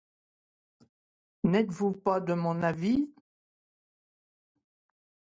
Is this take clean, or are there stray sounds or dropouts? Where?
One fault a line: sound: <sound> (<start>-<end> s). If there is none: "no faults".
no faults